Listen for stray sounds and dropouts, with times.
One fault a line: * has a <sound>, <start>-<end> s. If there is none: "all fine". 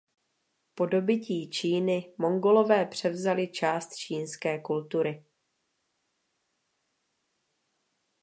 all fine